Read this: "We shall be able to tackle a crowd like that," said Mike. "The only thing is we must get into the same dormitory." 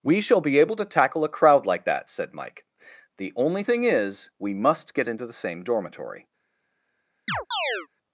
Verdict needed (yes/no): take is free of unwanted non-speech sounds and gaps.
no